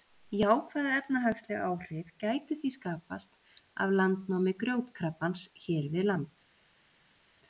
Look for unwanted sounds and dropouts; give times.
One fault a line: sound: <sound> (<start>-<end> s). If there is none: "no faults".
no faults